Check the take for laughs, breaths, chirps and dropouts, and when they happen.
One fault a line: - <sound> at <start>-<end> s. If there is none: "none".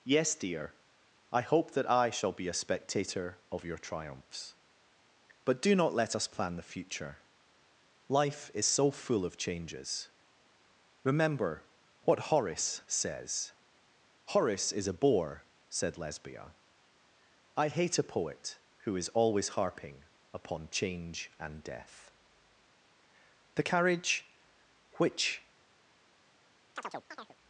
- chirp at 26.8-27.4 s